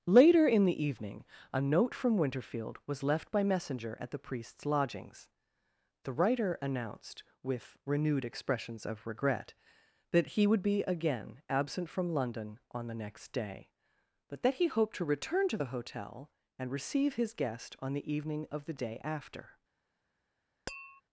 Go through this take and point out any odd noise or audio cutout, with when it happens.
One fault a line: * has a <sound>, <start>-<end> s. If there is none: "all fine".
* has a tap, 20.7-21.0 s